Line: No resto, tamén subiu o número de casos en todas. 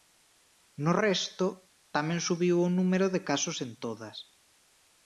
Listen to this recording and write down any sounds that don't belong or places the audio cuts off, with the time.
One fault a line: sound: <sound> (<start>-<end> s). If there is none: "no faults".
no faults